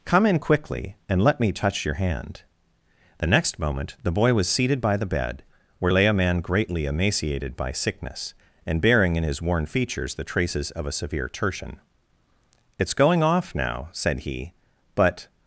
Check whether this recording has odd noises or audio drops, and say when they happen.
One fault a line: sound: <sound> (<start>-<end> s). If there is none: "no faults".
no faults